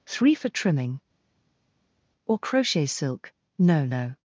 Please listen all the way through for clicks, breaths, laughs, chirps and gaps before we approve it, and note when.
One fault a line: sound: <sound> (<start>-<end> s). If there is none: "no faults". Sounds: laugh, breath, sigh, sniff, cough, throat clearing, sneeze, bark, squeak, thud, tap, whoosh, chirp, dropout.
no faults